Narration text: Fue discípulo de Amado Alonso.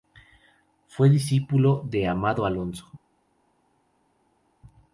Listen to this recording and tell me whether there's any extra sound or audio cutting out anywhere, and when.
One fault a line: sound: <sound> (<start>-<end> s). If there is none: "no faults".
no faults